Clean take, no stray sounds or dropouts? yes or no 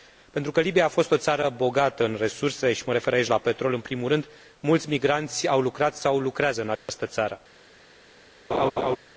no